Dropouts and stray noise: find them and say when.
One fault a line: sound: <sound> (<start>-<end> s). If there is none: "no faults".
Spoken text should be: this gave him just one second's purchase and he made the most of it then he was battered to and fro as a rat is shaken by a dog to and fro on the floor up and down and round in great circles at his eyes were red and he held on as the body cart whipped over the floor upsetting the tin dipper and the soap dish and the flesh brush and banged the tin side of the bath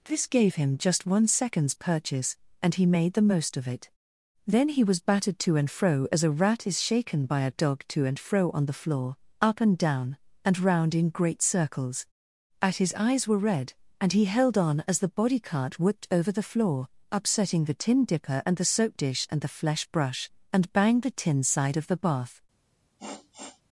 sound: sniff (23.0-23.6 s)